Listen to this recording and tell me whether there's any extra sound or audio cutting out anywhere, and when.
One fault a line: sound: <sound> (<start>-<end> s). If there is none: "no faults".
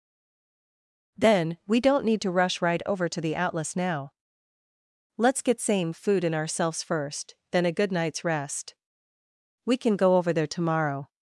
no faults